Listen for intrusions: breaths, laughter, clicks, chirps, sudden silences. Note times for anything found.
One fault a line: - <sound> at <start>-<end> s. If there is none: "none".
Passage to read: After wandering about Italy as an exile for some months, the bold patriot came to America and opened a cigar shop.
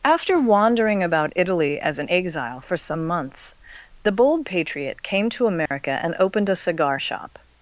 - dropout at 5.7-5.7 s